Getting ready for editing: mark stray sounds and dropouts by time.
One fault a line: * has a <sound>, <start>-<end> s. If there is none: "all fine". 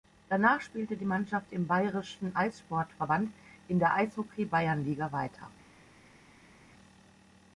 all fine